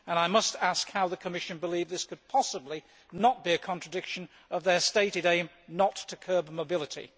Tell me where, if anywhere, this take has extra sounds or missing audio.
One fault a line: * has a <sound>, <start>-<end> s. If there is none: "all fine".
all fine